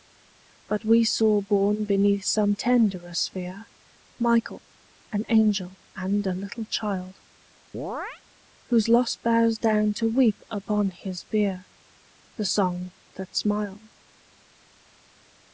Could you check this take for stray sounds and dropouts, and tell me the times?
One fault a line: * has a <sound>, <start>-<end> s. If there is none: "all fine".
* has a chirp, 7.7-8.2 s